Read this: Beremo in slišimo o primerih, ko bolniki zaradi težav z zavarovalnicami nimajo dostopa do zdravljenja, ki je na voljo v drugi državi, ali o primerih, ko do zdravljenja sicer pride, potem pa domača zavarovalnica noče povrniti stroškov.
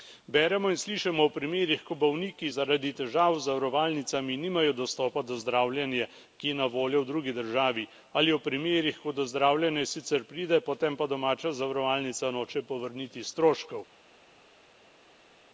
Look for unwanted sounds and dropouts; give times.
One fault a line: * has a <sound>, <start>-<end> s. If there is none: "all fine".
all fine